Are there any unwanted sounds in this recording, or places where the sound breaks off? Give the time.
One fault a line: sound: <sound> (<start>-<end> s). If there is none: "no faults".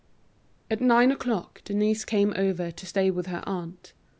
no faults